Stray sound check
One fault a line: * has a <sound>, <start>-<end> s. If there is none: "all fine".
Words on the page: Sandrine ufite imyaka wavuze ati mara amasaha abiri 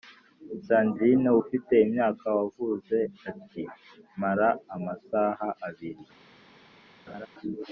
* has a laugh, 7.1-7.3 s